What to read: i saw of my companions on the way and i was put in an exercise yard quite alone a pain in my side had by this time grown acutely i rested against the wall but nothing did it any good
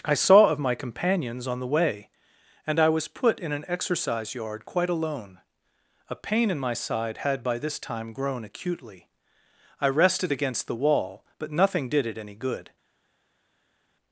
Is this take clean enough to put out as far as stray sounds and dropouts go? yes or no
yes